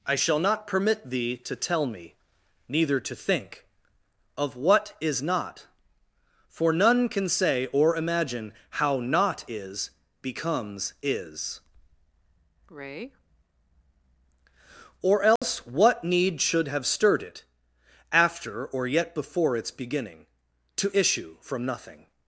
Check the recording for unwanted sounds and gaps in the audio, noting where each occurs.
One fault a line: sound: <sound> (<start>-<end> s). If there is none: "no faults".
sound: dropout (15.4-15.4 s)